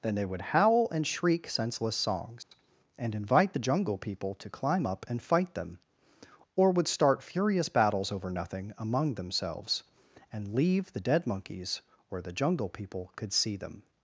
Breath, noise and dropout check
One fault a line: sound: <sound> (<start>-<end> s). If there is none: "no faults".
sound: dropout (2.4-2.5 s)